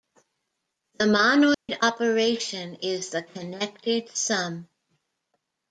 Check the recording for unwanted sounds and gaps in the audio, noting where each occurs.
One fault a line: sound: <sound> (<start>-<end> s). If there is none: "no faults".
sound: dropout (1.5-1.7 s)